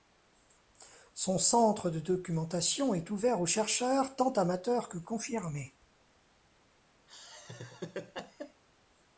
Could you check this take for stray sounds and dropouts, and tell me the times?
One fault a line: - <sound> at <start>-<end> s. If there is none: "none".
- laugh at 7.1-8.6 s